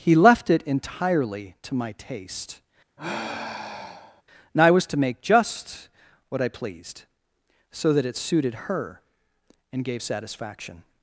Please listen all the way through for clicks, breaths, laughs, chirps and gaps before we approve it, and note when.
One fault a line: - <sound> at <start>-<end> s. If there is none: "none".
- sigh at 3.0-4.2 s